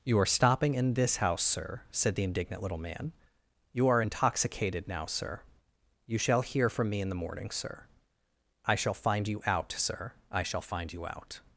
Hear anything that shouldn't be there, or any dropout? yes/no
no